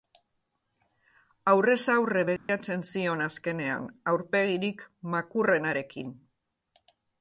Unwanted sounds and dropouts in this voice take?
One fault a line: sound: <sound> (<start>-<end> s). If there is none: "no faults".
sound: dropout (2.4-2.5 s)